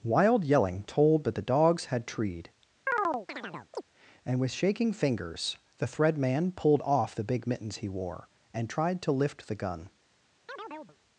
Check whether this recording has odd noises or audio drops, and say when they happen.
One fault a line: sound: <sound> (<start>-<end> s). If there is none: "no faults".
sound: chirp (2.9-3.8 s)
sound: chirp (10.5-11.0 s)